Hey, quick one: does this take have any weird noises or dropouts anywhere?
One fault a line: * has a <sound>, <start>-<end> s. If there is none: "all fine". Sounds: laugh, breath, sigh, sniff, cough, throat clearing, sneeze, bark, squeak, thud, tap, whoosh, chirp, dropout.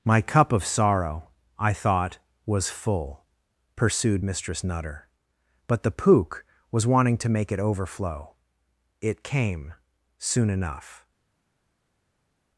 all fine